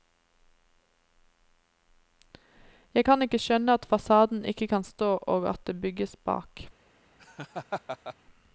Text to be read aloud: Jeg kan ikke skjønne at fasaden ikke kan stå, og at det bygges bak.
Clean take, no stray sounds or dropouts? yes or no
no